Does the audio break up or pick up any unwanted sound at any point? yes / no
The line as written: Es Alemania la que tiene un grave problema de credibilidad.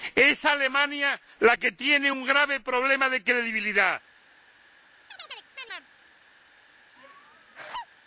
yes